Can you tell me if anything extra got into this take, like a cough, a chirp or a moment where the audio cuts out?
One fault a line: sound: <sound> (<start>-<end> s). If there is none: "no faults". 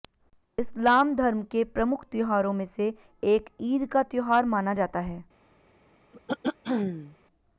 sound: throat clearing (6.1-7.2 s)